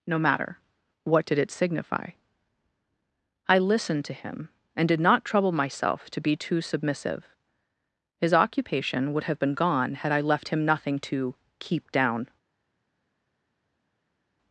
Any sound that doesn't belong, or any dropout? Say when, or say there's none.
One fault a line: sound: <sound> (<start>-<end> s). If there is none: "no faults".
no faults